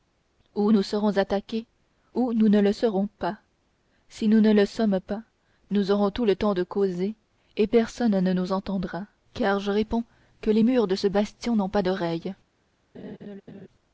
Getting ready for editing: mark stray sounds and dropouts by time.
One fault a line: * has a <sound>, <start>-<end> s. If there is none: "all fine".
* has a laugh, 12.9-13.7 s